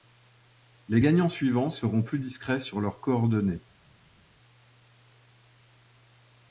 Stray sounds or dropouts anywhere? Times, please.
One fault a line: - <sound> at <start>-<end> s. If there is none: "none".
none